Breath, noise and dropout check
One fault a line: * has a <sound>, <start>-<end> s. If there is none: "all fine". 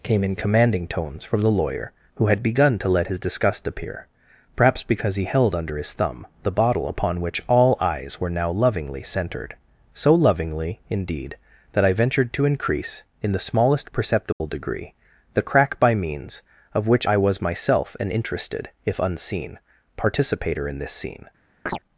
* has a dropout, 14.3-14.4 s
* has a chirp, 21.7-21.8 s